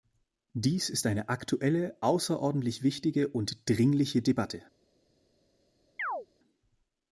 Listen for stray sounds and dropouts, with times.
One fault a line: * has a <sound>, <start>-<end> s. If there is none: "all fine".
* has a chirp, 6.0-6.3 s